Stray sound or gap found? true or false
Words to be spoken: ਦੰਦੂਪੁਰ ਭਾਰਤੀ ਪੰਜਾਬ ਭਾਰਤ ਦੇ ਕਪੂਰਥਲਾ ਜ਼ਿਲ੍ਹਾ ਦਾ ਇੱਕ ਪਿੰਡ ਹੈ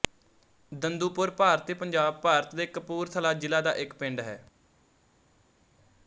false